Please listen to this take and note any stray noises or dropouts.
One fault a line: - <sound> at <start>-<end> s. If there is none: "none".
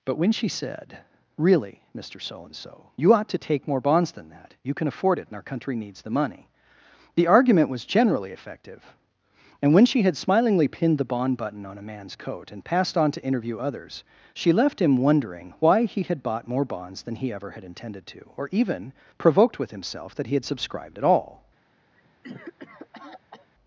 - cough at 21.9-23.5 s